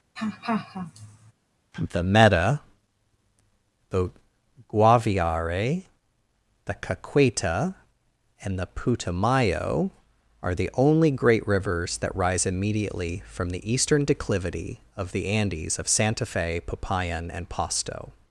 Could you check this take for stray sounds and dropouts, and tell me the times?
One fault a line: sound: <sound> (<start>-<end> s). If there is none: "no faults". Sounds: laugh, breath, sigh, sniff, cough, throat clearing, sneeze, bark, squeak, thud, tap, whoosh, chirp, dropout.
sound: laugh (0.2-1.3 s)